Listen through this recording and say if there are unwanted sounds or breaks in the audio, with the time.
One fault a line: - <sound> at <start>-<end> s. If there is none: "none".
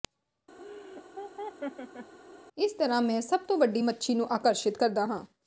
- laugh at 0.6-2.1 s